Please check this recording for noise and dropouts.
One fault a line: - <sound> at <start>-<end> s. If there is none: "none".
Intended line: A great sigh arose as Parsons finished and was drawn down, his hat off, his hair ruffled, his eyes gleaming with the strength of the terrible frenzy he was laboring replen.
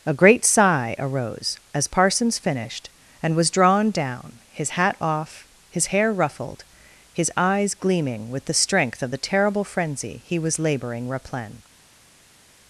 none